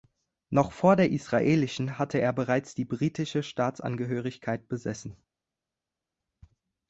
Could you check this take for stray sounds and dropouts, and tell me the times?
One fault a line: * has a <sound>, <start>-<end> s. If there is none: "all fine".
all fine